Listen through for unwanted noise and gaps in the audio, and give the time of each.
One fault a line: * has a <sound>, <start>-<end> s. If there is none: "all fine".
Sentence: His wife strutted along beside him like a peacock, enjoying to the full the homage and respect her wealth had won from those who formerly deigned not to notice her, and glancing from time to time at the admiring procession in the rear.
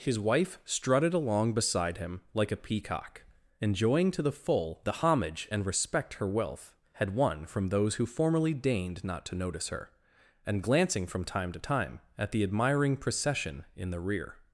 all fine